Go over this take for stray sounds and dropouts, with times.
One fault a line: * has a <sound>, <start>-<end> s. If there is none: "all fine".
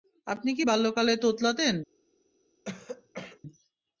* has a throat clearing, 2.6-3.4 s